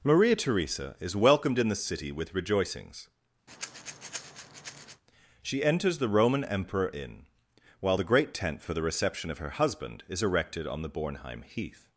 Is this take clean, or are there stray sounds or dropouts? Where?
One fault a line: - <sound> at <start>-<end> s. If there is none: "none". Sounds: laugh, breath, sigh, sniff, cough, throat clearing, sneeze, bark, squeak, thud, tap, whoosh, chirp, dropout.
- breath at 3.5-5.0 s